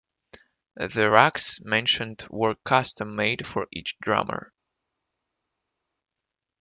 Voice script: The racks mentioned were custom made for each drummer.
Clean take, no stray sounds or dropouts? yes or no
yes